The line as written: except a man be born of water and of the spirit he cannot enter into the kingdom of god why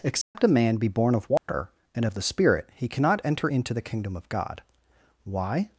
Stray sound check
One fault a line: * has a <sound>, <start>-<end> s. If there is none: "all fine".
* has a dropout, 0.2-0.4 s
* has a dropout, 1.4-1.5 s